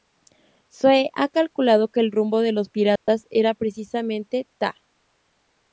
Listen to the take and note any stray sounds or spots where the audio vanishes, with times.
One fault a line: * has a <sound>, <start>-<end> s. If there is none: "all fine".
* has a dropout, 3.0-3.1 s